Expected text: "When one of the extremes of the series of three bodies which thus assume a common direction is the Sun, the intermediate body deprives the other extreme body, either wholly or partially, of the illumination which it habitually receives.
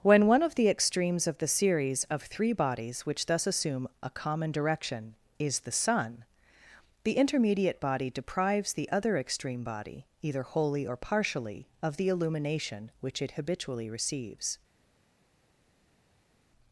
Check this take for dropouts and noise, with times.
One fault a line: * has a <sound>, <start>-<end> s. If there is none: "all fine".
all fine